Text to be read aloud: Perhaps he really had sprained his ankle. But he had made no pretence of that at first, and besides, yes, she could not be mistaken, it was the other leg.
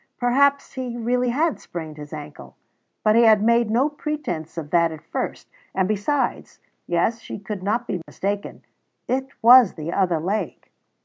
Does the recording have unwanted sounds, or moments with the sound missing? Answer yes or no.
yes